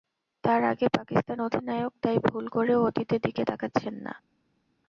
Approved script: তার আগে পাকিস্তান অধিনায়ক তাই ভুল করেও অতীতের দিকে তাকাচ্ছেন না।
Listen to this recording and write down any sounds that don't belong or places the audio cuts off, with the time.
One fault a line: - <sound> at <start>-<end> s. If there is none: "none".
none